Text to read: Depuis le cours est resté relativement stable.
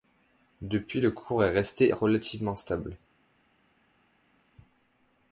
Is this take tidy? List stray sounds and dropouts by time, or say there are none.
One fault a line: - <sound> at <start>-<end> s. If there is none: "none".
none